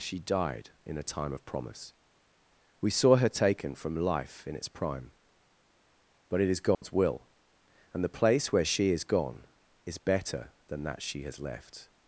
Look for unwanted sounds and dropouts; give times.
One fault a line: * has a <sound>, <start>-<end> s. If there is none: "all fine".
* has a dropout, 6.7-6.8 s